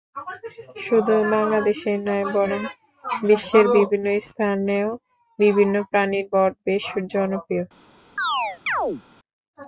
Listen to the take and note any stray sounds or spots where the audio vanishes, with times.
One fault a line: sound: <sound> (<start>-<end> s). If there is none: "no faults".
sound: chirp (8.2-9.0 s)